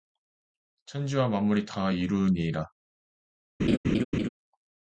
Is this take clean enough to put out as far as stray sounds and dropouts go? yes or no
no